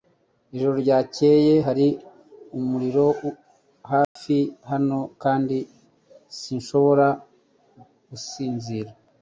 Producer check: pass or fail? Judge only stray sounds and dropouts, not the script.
fail